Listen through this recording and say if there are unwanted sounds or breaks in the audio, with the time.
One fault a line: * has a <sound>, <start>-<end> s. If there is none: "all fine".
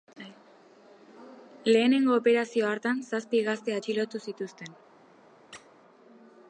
* has a squeak, 5.5-5.7 s